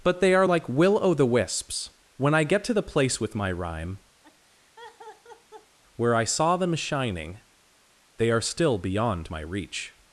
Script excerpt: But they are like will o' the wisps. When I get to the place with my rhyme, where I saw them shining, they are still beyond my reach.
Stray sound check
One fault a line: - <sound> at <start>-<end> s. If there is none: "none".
- laugh at 4.2-5.8 s